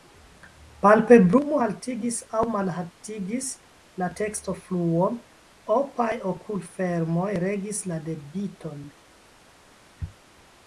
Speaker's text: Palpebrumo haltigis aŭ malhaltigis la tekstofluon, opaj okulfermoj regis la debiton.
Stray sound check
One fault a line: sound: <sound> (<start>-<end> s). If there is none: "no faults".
no faults